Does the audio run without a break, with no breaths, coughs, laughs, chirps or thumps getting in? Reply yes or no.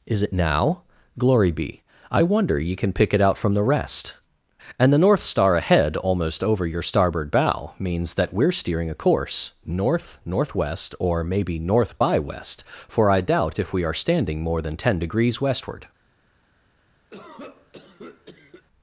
no